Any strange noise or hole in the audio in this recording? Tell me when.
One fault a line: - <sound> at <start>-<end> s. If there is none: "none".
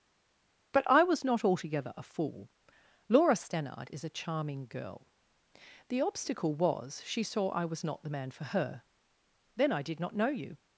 none